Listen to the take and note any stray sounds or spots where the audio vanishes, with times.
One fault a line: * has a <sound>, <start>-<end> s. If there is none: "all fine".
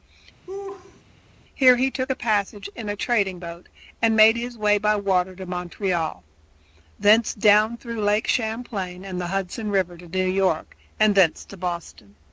* has a laugh, 0.5-1.0 s